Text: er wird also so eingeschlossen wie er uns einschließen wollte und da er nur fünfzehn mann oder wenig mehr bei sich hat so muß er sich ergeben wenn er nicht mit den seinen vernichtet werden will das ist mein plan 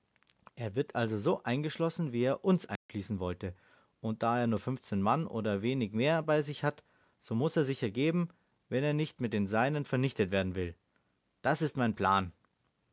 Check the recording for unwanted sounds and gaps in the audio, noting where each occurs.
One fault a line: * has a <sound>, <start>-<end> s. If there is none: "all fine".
* has a dropout, 2.8-2.9 s